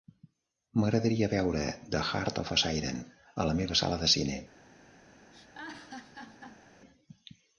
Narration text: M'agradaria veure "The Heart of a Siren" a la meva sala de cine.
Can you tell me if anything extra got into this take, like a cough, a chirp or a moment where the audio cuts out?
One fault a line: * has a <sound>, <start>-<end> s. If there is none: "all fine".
* has a laugh, 5.3-6.6 s